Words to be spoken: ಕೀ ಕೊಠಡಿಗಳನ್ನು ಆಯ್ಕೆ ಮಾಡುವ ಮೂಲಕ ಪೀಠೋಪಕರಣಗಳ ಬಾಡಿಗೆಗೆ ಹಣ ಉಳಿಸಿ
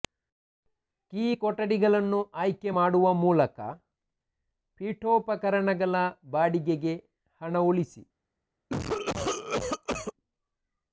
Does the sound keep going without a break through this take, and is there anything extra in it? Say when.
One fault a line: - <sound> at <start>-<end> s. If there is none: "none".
- cough at 8.7-10.1 s